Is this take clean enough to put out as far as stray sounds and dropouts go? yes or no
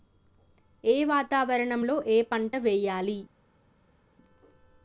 yes